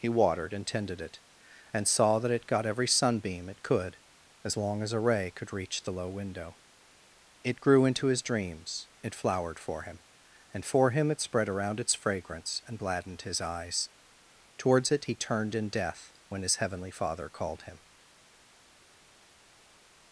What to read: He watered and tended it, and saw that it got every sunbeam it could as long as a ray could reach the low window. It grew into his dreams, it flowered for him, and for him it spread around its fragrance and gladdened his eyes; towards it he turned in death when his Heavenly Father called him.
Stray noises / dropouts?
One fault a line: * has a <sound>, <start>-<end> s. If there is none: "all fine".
all fine